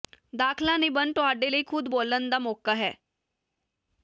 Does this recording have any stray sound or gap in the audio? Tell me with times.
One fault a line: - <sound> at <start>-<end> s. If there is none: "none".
none